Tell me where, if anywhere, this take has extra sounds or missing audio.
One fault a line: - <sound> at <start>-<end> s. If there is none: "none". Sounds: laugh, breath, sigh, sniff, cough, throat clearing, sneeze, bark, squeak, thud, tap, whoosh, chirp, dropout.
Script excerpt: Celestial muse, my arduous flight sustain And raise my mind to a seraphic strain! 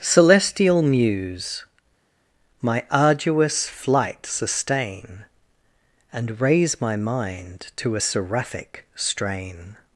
none